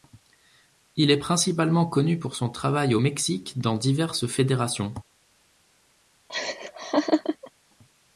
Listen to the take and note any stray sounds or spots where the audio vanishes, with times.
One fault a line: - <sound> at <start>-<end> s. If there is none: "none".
- laugh at 6.3-7.5 s